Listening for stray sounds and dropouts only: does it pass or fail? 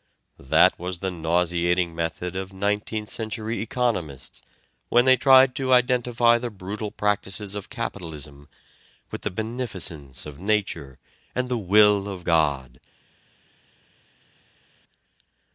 pass